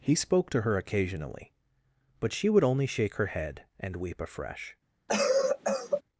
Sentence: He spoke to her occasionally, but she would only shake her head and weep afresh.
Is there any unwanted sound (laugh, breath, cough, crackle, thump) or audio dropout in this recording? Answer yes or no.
yes